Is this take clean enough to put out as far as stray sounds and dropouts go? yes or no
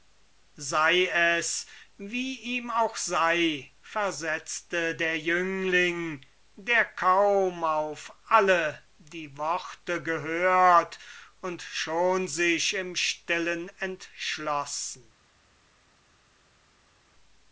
yes